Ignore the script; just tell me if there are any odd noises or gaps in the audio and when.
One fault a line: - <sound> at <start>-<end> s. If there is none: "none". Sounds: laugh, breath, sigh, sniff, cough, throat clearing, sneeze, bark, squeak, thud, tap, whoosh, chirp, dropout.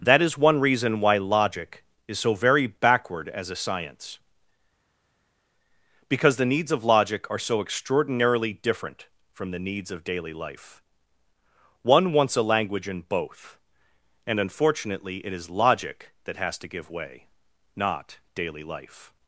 none